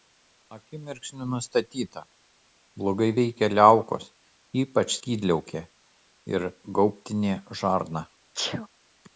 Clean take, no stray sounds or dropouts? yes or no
no